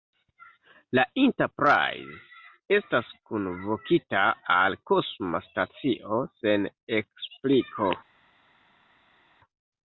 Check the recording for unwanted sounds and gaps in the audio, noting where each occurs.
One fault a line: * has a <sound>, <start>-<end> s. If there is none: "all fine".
all fine